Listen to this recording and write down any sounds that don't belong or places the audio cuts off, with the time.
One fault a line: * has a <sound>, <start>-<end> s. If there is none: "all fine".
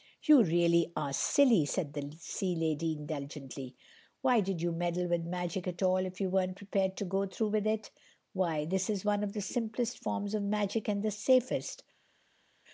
all fine